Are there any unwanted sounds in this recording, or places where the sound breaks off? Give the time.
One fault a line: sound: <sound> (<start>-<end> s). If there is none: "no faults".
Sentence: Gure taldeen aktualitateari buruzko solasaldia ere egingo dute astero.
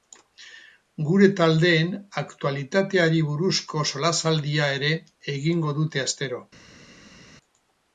no faults